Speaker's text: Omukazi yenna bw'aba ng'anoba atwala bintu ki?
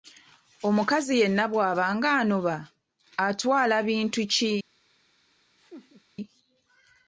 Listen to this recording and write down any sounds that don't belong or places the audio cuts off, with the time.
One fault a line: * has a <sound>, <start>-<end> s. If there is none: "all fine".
* has a laugh, 5.6-6.0 s